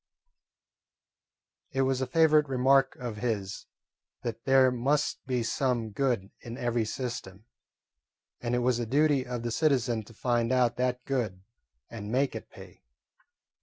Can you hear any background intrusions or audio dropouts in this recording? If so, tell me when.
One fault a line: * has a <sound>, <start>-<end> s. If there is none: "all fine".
all fine